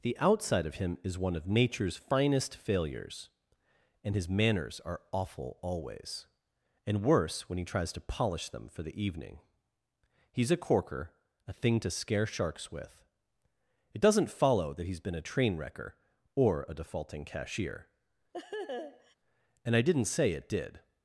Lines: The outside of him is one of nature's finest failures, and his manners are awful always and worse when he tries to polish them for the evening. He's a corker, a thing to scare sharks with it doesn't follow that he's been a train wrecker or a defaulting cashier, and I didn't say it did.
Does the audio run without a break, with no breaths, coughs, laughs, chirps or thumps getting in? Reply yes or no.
no